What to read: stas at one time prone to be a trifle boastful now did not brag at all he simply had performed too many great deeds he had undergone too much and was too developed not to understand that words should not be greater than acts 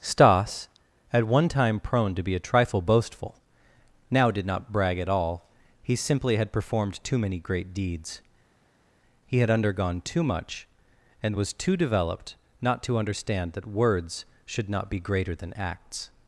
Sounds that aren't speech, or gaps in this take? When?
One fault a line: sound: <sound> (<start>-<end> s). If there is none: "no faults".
no faults